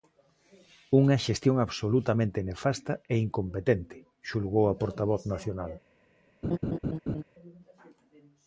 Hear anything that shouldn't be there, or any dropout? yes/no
yes